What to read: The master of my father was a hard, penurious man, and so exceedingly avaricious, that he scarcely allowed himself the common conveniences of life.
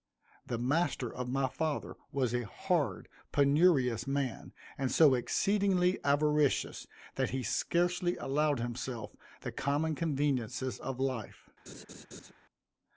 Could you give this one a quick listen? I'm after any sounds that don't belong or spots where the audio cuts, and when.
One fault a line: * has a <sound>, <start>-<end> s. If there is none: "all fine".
* has a laugh, 11.7-12.3 s